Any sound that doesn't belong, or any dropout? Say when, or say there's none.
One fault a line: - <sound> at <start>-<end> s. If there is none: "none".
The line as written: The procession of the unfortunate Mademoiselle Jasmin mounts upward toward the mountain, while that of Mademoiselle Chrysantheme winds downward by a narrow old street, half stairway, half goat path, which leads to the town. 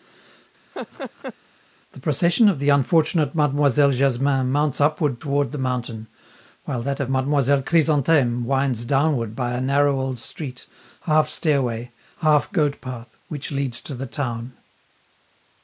- laugh at 0.7-1.3 s